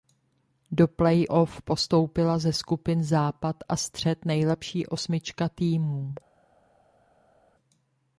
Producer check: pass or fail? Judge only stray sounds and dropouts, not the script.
pass